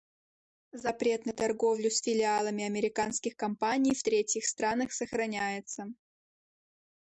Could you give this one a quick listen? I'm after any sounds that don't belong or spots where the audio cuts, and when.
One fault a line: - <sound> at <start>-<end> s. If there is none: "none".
none